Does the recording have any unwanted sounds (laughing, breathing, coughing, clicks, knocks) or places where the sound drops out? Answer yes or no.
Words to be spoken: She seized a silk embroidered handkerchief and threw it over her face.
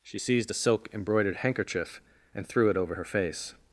no